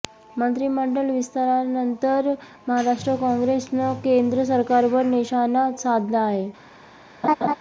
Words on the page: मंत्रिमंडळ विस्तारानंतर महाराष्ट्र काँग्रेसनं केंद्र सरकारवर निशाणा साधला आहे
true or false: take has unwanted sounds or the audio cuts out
true